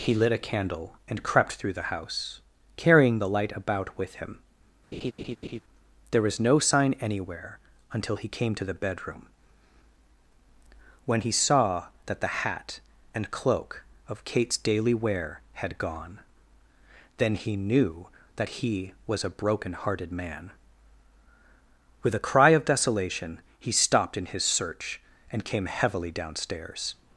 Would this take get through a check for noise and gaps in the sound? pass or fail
fail